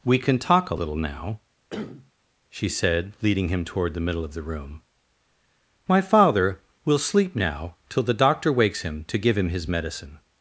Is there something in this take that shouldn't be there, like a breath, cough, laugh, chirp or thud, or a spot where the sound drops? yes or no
yes